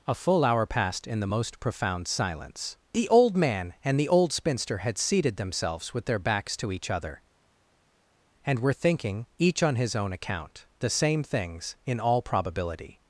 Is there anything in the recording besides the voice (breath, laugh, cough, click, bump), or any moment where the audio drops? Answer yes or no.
no